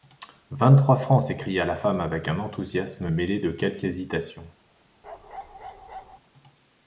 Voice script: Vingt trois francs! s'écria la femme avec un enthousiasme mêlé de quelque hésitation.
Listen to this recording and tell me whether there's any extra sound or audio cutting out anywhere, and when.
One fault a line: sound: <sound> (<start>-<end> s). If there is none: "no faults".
sound: bark (5.0-6.2 s)